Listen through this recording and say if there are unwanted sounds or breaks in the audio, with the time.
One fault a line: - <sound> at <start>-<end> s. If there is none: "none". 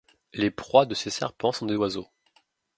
none